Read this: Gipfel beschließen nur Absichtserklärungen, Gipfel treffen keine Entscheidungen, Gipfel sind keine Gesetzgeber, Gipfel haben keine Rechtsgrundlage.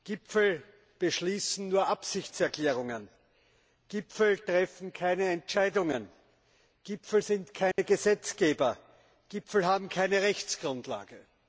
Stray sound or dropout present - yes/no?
yes